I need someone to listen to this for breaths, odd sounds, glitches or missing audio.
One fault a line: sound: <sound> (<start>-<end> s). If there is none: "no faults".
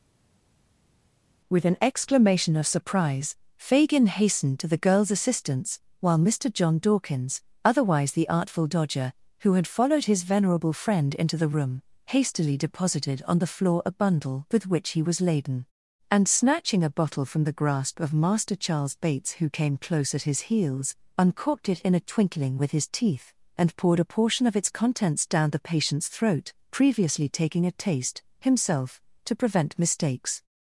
no faults